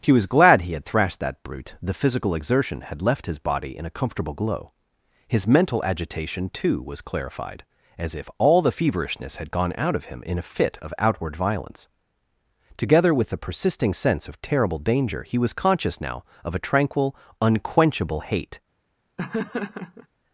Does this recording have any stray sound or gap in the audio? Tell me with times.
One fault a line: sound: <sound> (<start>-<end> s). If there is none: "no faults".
sound: laugh (19.2-20.1 s)